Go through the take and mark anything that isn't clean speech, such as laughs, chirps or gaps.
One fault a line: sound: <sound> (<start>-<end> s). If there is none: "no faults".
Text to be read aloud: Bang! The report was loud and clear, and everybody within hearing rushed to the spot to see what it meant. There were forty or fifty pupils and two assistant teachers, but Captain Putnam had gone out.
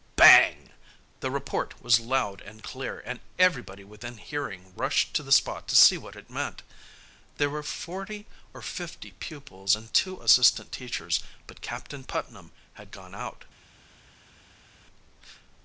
no faults